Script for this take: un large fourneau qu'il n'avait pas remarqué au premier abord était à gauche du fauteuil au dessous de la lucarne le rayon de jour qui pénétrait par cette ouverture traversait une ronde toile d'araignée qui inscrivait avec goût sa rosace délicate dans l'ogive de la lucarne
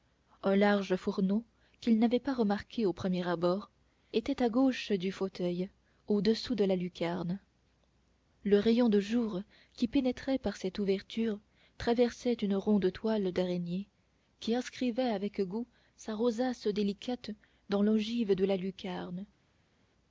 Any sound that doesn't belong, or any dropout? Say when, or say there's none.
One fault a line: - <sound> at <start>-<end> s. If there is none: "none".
none